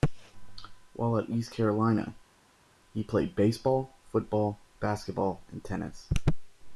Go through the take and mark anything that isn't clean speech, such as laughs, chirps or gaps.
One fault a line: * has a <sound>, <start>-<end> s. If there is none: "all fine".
all fine